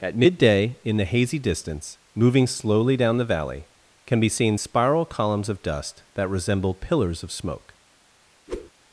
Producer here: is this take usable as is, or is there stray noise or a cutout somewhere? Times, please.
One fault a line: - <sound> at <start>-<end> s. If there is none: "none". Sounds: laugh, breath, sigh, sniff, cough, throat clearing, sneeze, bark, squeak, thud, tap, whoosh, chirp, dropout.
- whoosh at 8.5-8.7 s